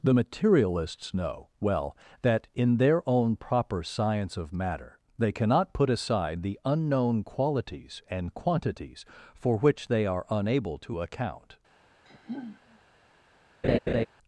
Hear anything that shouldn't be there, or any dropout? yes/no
yes